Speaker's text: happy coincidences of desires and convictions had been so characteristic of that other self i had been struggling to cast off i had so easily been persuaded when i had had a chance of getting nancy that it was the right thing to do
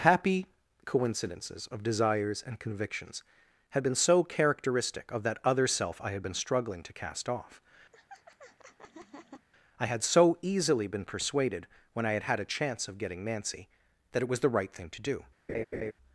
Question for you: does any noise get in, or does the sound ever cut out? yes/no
yes